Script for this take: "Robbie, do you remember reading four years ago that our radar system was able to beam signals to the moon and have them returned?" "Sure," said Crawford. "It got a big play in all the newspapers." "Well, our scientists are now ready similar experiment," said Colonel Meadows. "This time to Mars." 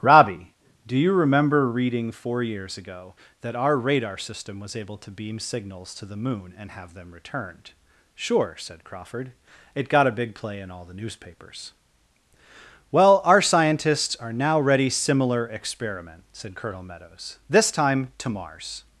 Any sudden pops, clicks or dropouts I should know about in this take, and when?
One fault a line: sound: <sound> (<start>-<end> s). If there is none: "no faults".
no faults